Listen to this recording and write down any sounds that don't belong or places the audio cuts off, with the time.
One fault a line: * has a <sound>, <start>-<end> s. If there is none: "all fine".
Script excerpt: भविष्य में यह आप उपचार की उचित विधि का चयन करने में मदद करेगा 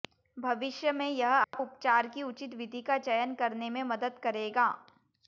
* has a dropout, 1.4-1.5 s